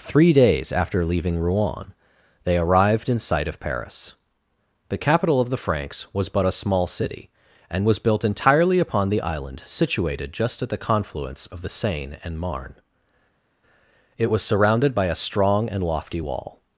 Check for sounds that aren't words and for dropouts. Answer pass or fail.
pass